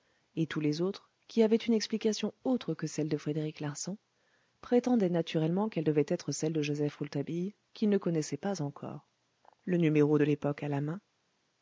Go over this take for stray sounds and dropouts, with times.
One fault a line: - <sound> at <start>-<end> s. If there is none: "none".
none